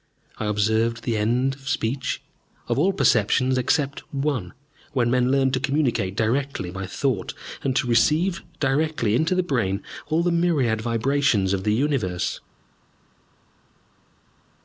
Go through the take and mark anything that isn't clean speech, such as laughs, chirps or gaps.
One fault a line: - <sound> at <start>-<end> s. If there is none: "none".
none